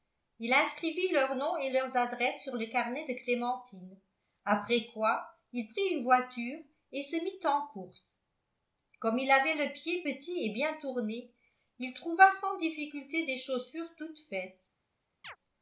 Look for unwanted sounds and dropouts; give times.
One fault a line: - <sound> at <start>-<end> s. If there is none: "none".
- chirp at 15.2-15.4 s